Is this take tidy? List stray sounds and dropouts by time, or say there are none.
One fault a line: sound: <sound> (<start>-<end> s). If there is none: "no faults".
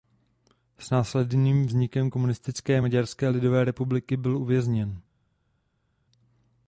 no faults